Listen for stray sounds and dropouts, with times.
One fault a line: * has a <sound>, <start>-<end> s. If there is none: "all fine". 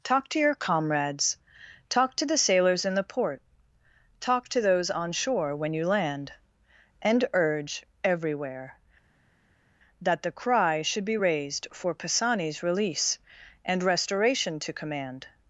all fine